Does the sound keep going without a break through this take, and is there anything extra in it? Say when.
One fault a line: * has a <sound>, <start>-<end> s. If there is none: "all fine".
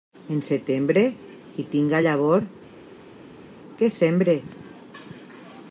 all fine